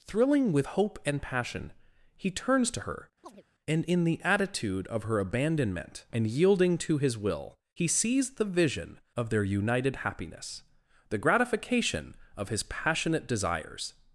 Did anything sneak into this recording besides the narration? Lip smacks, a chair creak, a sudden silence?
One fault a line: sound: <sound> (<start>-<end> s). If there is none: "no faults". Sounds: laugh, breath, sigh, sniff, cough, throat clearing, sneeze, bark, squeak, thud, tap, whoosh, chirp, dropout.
sound: chirp (3.2-3.4 s)